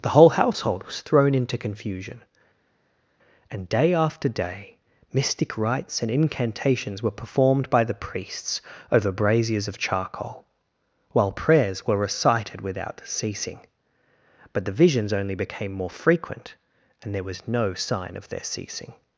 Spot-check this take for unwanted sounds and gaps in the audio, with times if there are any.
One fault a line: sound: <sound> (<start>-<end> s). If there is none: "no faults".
no faults